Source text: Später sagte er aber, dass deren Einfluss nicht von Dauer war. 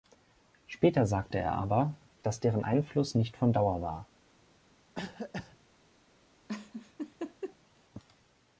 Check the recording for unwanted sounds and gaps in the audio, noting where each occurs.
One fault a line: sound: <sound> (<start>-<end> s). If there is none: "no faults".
sound: cough (4.9-5.6 s)
sound: laugh (6.5-7.6 s)